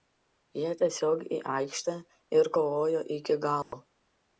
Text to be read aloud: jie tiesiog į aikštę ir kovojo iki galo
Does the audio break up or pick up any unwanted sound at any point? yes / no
yes